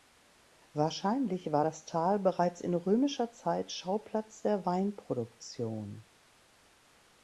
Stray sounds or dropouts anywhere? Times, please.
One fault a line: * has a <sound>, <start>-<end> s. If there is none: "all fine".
all fine